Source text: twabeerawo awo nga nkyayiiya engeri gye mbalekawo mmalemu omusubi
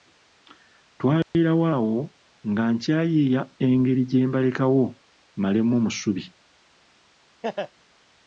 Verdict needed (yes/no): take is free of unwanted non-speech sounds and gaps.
no